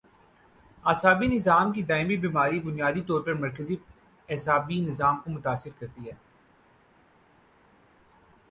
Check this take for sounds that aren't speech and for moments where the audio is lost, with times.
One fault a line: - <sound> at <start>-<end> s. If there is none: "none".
none